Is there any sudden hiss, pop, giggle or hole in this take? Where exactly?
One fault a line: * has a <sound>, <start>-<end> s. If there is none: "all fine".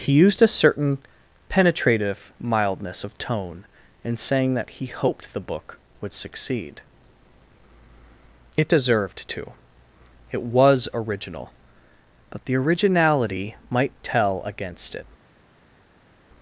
all fine